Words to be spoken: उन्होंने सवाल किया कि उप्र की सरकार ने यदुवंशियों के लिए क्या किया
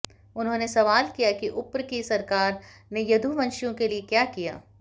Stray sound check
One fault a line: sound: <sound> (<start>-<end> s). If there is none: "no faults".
no faults